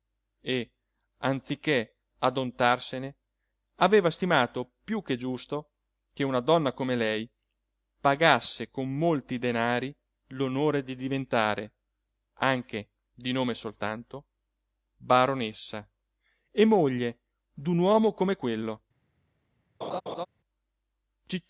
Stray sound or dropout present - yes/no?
yes